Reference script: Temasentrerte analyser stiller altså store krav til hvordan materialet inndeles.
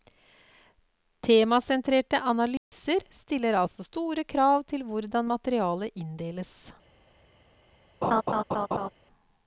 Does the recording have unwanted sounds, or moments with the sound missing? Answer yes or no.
yes